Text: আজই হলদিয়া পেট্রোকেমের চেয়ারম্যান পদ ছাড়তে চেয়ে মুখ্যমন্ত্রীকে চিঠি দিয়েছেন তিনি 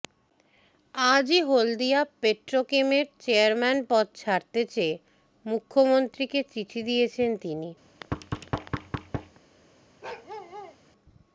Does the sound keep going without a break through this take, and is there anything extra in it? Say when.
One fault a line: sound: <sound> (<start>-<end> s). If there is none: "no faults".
sound: thud (7.8-9.4 s)
sound: bark (10.0-10.8 s)